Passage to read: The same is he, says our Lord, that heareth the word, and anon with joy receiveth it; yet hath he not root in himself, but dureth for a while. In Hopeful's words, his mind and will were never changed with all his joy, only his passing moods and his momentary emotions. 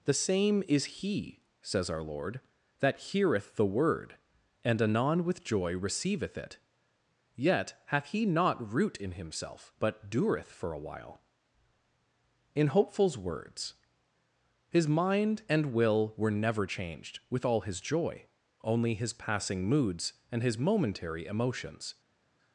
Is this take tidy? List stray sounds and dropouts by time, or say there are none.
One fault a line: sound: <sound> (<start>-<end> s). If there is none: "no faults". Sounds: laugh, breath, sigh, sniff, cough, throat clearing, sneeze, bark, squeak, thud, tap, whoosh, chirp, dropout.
no faults